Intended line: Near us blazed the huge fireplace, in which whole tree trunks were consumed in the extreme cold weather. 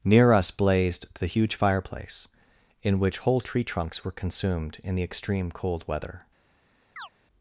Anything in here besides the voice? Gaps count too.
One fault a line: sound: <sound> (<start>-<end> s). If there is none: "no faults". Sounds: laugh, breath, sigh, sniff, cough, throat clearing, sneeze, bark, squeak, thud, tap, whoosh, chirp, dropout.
sound: chirp (7.0-7.1 s)